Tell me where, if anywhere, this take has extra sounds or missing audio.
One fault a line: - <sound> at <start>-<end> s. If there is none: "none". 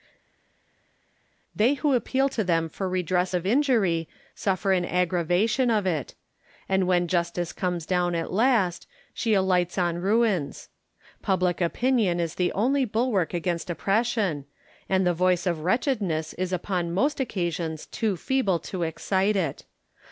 none